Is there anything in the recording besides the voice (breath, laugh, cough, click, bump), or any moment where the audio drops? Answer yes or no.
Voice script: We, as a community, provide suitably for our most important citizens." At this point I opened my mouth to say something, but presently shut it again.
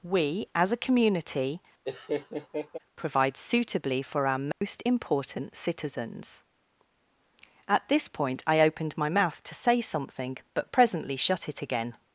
yes